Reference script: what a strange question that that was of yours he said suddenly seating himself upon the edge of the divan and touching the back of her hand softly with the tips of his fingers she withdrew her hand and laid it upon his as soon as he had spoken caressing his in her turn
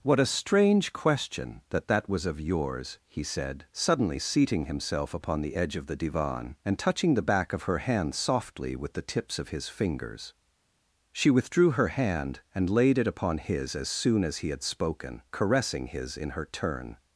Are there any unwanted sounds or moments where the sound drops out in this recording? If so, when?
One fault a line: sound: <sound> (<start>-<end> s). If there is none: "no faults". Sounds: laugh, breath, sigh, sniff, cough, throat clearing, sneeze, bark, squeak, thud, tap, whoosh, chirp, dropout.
no faults